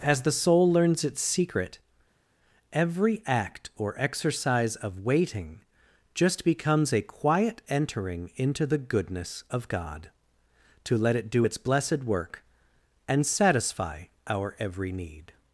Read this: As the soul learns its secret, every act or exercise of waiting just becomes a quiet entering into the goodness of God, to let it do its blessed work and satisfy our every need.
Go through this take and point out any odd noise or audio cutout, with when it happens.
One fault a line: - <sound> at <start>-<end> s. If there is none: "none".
none